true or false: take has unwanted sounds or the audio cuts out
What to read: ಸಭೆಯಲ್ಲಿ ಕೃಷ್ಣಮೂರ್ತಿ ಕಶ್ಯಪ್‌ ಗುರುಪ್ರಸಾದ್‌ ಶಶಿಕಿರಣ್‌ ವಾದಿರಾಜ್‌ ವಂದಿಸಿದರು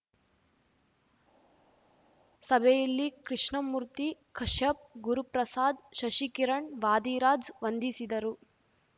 false